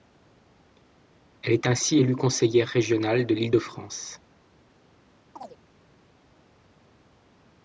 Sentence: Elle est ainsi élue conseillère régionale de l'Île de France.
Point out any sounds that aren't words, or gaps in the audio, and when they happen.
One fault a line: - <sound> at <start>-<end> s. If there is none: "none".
- chirp at 5.4-5.6 s